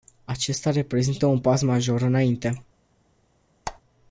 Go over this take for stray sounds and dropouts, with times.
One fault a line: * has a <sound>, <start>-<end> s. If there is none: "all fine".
* has a squeak, 3.7-3.8 s